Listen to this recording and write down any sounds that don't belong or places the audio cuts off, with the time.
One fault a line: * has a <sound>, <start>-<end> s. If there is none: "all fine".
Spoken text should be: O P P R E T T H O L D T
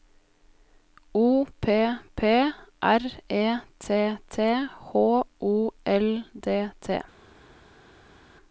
all fine